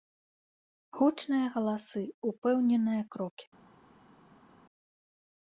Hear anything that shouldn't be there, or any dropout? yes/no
no